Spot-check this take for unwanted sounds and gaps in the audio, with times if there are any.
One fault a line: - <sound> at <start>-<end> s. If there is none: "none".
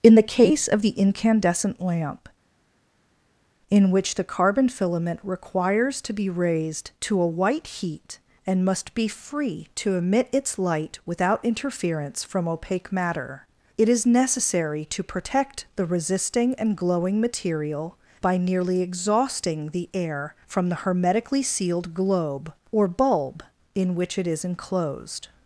none